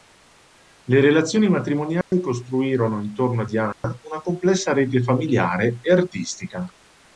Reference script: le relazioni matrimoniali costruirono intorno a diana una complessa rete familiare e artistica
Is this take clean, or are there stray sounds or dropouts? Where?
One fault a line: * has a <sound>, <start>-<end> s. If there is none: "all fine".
* has a dropout, 2.0-2.1 s
* has a dropout, 3.7-3.8 s